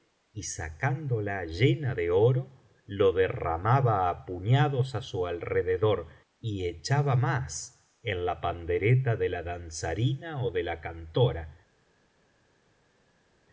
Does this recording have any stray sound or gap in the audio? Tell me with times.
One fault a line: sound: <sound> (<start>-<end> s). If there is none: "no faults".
no faults